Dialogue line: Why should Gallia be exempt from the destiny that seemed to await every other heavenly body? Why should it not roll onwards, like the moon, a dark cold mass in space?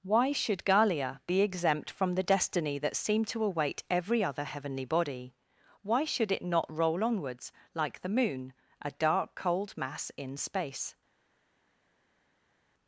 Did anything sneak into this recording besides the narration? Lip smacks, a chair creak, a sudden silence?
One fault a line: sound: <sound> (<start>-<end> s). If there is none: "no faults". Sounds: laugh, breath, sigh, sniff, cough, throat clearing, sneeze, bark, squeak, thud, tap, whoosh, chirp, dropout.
no faults